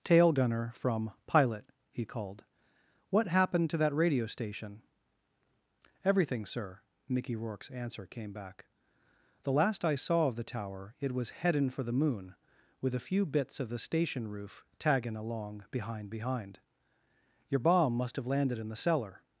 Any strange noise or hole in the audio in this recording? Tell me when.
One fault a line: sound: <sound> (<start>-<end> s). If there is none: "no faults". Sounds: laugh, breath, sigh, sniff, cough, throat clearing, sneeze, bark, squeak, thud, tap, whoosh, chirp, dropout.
no faults